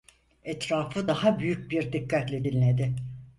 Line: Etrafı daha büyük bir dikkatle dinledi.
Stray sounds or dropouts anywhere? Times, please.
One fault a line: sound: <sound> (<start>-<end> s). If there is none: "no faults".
no faults